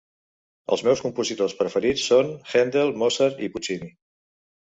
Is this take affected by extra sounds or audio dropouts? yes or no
no